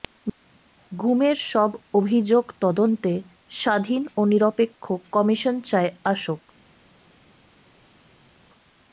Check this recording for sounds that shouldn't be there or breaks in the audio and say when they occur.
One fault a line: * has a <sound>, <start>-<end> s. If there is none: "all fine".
all fine